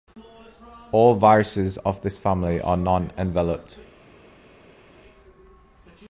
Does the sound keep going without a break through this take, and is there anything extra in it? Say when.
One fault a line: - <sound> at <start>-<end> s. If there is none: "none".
none